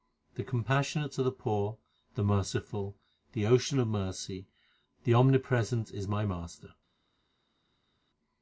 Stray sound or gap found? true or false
false